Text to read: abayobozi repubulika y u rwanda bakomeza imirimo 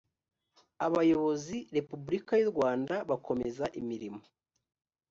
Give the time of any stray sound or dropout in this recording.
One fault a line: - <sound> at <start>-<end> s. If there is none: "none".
none